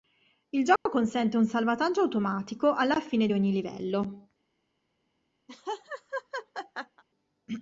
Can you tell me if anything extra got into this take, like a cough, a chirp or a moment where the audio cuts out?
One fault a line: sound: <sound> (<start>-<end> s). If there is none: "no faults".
sound: dropout (0.8-0.9 s)
sound: laugh (5.5-7.0 s)